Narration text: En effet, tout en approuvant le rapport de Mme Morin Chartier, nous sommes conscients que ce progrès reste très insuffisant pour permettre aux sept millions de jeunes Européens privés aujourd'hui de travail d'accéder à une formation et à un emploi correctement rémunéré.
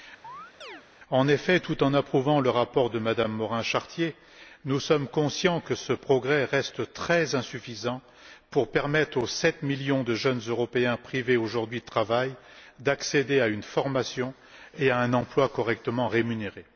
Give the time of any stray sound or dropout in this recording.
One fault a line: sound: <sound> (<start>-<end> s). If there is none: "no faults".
sound: chirp (0.2-0.8 s)